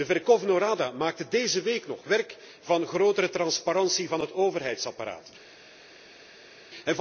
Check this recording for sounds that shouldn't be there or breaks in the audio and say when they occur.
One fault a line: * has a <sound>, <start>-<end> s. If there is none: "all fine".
all fine